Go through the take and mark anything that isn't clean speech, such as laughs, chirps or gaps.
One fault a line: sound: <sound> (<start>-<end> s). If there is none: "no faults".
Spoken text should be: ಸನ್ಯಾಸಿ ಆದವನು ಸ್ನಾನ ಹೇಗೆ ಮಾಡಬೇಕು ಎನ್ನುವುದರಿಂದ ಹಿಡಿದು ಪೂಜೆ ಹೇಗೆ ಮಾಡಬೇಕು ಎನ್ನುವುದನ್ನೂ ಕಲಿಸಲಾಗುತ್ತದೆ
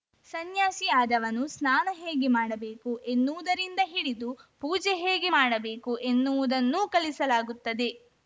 no faults